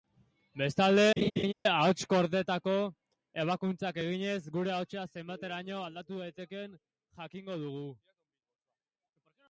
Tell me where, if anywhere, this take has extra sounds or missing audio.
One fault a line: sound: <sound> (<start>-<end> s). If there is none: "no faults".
sound: laugh (1.2-1.5 s)